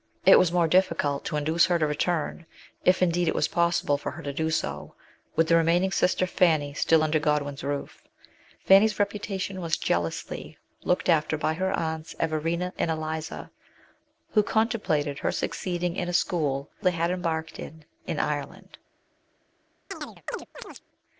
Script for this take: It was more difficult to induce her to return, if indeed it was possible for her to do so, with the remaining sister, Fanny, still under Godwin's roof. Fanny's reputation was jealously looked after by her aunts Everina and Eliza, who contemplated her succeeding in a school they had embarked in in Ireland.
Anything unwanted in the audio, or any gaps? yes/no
yes